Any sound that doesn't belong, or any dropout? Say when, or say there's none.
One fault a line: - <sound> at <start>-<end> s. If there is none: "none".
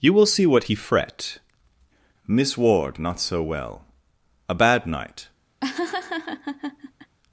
- laugh at 5.6-7.2 s